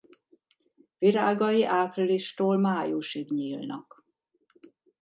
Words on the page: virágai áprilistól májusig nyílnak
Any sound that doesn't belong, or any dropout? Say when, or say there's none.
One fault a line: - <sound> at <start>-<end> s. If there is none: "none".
none